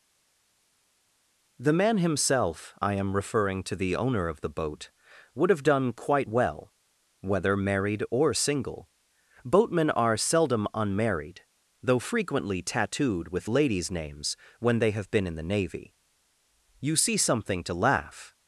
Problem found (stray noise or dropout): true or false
false